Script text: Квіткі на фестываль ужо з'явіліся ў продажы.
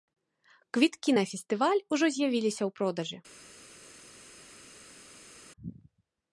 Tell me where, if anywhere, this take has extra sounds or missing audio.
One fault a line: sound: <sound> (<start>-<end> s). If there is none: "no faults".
no faults